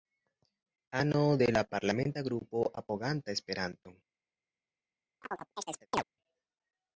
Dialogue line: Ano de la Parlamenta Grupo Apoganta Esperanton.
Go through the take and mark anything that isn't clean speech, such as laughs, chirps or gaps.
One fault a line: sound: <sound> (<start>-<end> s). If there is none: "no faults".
sound: chirp (5.2-6.0 s)